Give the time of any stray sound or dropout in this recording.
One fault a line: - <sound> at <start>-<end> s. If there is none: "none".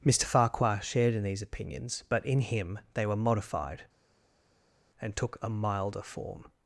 none